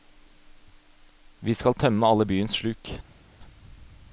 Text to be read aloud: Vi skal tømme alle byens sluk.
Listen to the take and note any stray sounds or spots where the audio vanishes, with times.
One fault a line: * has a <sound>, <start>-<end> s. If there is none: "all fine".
all fine